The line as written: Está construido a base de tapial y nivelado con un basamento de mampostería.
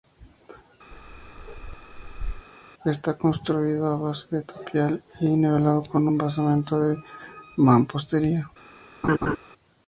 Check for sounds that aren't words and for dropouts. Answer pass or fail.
fail